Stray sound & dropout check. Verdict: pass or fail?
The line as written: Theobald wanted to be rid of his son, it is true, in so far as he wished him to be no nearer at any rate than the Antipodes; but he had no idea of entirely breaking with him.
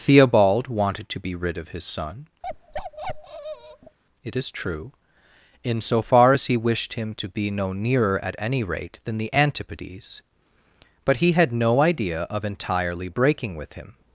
fail